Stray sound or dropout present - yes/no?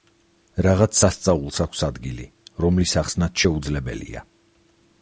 no